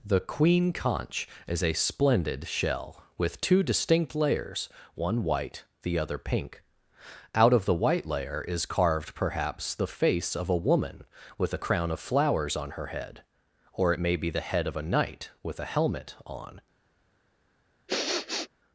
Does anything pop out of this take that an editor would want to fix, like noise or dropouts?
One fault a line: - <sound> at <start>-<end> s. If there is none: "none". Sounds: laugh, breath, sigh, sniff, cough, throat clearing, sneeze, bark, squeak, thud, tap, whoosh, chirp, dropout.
- sniff at 17.9-18.5 s